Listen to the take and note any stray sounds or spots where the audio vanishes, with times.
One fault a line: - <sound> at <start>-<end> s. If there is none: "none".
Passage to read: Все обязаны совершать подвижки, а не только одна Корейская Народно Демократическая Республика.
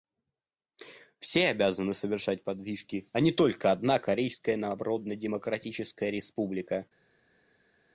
none